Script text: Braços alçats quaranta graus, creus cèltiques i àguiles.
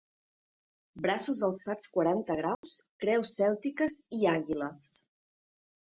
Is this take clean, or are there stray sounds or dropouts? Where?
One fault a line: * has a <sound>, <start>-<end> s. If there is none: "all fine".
* has a dropout, 2.5-2.6 s